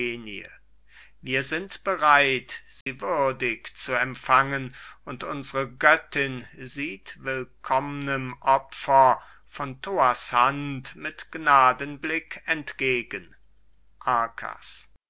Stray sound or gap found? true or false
true